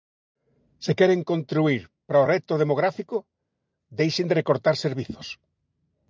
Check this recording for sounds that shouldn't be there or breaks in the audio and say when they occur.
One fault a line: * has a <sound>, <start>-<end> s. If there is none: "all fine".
all fine